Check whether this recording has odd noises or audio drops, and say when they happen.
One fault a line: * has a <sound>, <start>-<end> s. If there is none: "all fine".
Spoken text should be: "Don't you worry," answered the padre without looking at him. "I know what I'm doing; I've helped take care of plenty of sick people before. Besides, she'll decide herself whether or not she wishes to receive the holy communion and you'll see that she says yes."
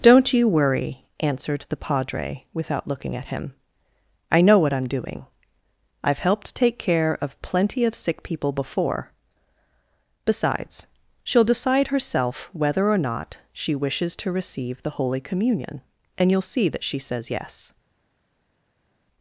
all fine